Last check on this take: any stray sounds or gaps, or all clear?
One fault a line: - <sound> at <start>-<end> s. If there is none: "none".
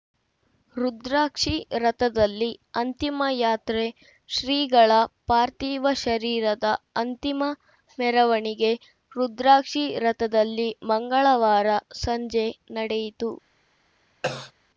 - cough at 14.2-14.5 s